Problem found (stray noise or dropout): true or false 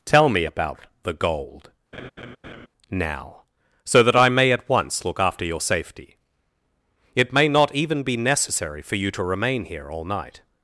true